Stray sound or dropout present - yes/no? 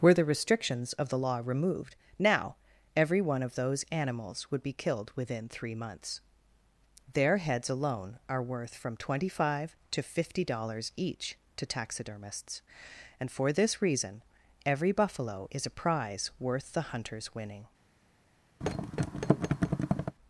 yes